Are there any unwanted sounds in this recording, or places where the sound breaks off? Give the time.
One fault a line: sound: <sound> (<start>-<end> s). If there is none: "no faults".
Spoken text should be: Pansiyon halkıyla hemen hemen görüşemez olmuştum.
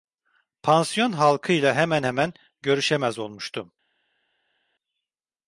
no faults